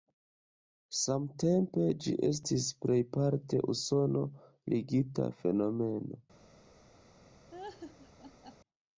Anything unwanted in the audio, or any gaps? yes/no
yes